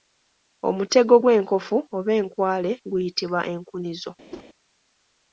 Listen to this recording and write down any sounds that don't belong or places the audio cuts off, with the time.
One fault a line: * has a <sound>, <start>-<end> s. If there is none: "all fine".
* has a whoosh, 4.3-4.5 s